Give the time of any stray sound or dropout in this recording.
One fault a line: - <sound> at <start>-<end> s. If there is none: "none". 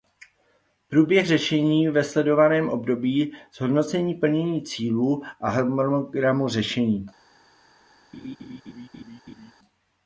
- laugh at 8.1-9.5 s